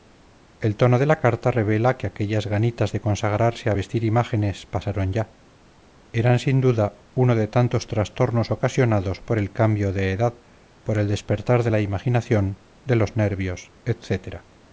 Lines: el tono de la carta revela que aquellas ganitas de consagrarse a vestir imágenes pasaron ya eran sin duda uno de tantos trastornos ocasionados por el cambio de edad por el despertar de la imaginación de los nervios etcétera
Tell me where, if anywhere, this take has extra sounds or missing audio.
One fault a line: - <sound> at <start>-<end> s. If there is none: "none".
none